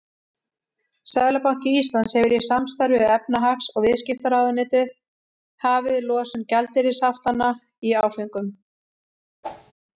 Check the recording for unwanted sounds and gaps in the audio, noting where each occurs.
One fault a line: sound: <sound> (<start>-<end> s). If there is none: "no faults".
sound: whoosh (9.4-9.7 s)